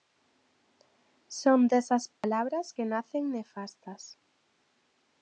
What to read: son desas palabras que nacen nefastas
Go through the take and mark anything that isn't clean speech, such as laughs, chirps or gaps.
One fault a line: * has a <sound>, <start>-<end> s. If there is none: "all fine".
* has a dropout, 2.1-2.2 s